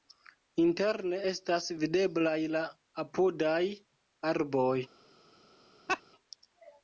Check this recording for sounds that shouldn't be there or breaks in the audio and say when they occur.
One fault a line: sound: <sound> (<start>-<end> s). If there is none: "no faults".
sound: laugh (5.9-6.0 s)